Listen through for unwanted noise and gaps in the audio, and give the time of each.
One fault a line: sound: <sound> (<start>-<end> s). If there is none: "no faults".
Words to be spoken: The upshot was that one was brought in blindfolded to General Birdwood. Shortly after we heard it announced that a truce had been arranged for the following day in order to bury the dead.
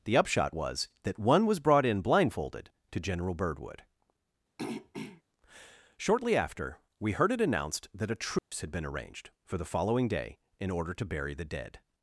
sound: throat clearing (4.6-5.2 s)
sound: dropout (8.4-8.5 s)